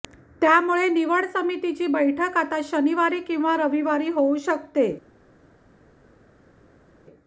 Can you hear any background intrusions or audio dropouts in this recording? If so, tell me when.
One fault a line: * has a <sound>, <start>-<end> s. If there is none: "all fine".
all fine